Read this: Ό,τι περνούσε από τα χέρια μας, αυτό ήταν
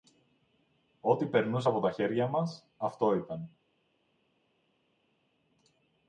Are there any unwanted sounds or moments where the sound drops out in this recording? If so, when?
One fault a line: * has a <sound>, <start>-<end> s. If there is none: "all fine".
all fine